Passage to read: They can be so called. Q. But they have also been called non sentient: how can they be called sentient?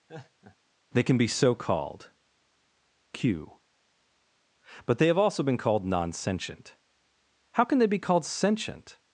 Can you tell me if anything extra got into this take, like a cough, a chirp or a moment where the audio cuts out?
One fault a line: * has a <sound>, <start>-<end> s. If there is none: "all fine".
* has a laugh, 0.1-0.6 s